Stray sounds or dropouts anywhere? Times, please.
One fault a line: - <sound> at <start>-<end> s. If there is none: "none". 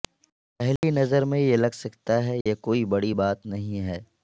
- dropout at 0.8-0.8 s
- dropout at 2.4-2.5 s